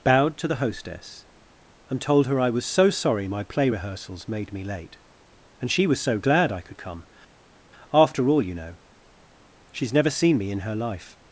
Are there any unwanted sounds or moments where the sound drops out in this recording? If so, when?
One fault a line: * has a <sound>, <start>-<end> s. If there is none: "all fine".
all fine